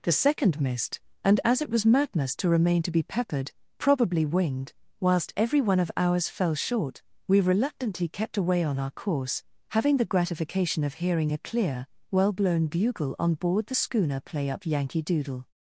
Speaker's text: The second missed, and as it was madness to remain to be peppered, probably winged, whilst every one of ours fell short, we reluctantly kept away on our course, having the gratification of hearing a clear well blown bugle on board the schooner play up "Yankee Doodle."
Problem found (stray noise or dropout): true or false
false